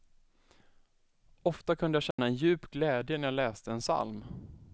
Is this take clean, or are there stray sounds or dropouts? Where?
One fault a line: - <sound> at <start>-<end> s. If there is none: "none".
- dropout at 2.1-2.2 s